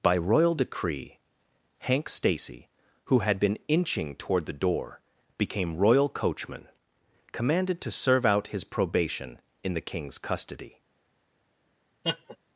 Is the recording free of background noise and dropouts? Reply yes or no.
no